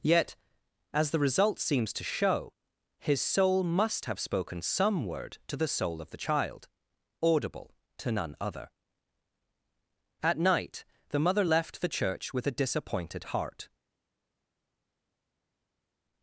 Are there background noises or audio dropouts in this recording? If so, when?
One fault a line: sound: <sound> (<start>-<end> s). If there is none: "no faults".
no faults